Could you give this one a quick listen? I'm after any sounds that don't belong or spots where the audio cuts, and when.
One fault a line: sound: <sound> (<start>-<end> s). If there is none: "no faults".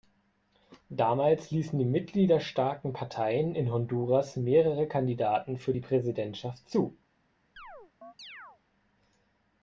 sound: chirp (7.6-8.6 s)